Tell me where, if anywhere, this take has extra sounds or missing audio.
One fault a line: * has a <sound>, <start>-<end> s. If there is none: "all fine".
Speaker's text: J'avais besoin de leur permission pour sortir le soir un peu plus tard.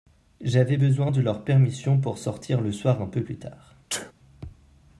* has a sneeze, 3.9-4.1 s